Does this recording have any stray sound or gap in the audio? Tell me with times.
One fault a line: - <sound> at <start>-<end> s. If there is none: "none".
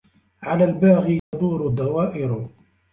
- dropout at 1.2-1.3 s